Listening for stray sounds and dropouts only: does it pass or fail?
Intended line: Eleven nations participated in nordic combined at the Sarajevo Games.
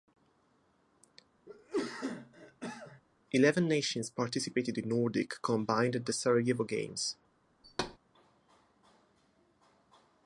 fail